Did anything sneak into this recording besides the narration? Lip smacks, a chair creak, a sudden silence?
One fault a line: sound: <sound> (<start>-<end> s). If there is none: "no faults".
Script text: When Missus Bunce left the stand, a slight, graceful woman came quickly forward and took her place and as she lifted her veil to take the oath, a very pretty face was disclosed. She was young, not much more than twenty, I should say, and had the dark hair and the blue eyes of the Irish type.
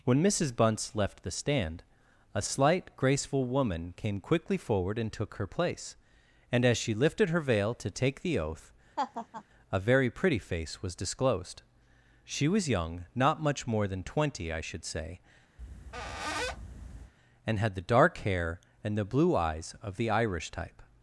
sound: laugh (9.0-9.4 s)
sound: squeak (15.6-17.1 s)